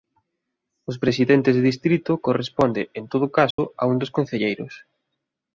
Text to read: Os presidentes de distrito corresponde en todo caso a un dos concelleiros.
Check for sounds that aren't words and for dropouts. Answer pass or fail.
fail